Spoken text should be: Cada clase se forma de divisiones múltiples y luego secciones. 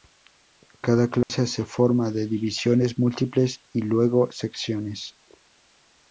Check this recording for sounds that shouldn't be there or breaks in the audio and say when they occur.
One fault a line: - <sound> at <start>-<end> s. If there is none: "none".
- dropout at 1.2-1.3 s